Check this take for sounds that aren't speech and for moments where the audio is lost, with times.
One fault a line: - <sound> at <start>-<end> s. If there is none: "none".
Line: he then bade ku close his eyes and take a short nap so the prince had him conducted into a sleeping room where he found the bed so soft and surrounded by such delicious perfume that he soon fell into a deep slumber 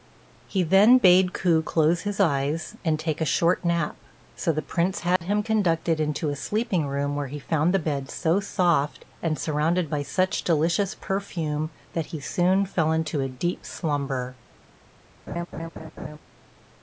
- dropout at 5.2-5.2 s
- laugh at 15.3-16.2 s